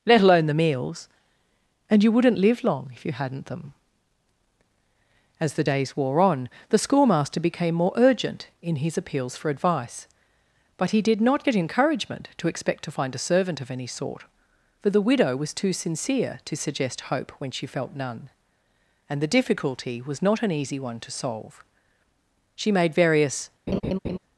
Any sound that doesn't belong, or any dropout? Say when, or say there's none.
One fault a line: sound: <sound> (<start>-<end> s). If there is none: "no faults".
sound: laugh (23.7-24.2 s)